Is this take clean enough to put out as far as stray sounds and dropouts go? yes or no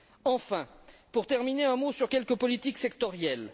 yes